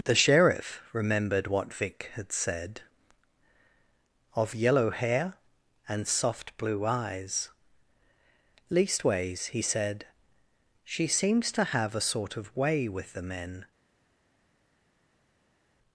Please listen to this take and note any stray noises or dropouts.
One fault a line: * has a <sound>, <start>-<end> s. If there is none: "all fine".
all fine